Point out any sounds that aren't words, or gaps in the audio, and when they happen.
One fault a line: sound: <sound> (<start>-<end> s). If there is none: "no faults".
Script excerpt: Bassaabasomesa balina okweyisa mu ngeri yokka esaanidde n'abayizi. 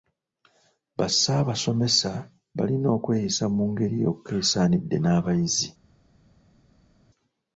no faults